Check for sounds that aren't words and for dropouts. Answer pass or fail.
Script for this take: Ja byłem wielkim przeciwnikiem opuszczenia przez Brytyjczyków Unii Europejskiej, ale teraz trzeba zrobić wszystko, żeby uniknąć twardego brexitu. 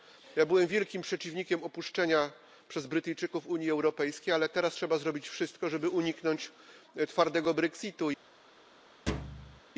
fail